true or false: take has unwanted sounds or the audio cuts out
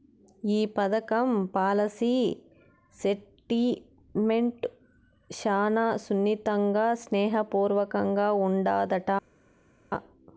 false